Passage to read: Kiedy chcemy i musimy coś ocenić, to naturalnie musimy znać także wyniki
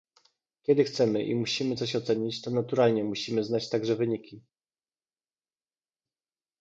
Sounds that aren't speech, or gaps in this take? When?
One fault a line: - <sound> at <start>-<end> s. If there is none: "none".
none